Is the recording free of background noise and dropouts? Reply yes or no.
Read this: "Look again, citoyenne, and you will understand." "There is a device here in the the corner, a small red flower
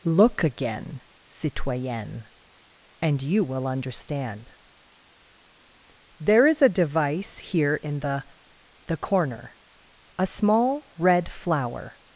yes